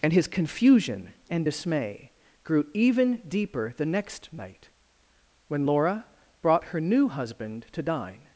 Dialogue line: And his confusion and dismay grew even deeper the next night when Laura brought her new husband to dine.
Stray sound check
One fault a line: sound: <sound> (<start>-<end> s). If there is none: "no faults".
no faults